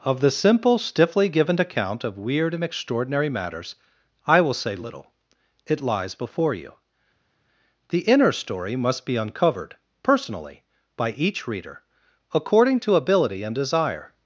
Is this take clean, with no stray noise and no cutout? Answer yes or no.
yes